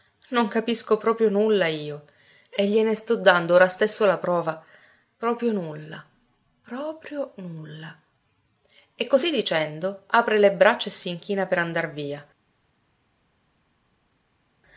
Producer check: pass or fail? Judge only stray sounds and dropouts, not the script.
pass